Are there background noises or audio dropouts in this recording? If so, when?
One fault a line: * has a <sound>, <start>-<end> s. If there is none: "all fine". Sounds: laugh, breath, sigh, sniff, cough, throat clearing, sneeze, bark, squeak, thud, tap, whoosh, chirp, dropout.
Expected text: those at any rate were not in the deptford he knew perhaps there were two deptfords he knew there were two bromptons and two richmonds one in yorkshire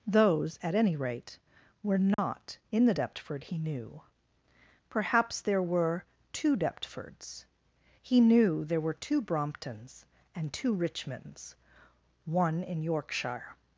* has a dropout, 2.1-2.2 s